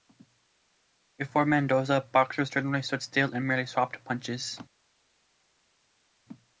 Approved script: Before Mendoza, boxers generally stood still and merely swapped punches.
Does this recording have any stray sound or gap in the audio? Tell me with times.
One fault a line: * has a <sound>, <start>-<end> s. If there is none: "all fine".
all fine